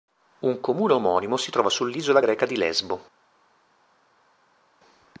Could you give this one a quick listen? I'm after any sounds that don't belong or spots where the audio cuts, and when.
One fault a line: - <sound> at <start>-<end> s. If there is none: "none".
none